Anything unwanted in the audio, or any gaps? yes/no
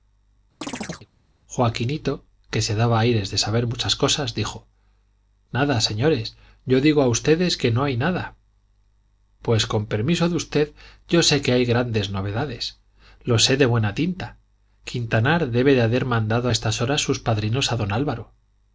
yes